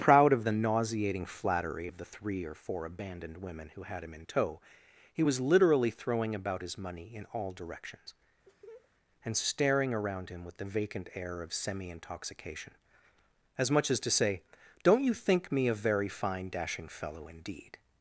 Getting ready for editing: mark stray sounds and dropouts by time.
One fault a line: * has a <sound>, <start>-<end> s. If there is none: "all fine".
* has a laugh, 8.5-8.9 s